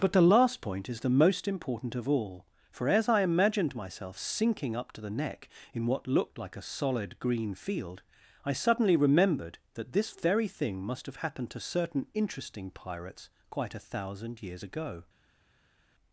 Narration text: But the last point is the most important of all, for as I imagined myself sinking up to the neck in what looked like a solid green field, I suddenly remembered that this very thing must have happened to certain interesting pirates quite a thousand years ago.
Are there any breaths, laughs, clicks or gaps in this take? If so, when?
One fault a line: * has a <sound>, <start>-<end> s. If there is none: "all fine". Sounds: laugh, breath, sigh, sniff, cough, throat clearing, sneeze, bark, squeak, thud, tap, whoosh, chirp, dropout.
all fine